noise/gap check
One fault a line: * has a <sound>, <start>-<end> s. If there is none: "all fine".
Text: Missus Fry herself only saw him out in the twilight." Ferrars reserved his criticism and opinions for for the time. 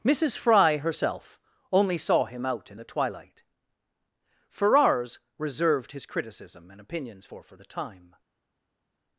all fine